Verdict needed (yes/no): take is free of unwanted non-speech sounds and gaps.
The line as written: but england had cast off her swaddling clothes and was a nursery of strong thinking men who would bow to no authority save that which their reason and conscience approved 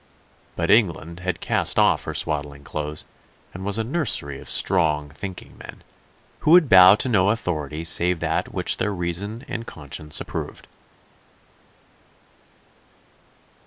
yes